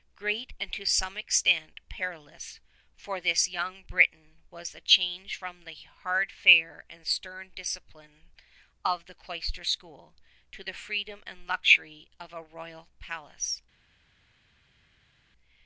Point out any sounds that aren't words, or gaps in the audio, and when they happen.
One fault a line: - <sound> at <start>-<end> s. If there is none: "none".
none